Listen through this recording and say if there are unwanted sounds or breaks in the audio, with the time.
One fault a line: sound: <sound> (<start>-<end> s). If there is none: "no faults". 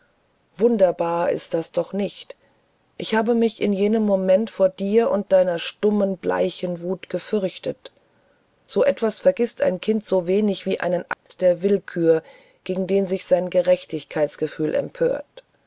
sound: dropout (11.1-11.3 s)